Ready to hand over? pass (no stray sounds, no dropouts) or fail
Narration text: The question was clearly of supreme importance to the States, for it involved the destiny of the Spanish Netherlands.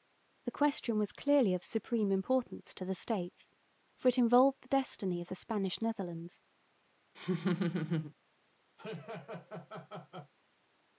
fail